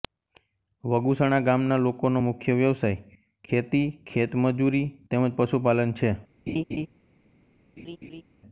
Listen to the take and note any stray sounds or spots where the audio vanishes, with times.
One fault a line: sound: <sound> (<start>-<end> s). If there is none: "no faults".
sound: laugh (6.5-6.9 s)
sound: laugh (7.8-8.2 s)